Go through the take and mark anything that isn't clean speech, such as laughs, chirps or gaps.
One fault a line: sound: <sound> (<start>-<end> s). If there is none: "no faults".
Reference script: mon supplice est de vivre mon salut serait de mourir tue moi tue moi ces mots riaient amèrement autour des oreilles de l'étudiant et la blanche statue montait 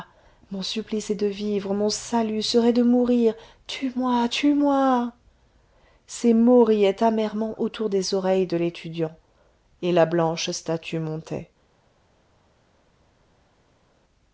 no faults